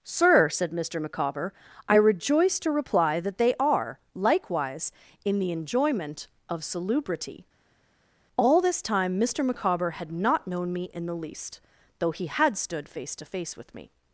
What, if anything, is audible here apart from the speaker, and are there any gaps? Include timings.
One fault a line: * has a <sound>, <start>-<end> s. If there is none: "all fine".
all fine